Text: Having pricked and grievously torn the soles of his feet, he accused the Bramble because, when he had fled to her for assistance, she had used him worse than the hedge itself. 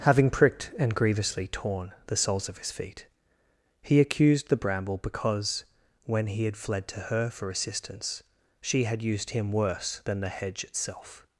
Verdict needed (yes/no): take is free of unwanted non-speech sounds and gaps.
yes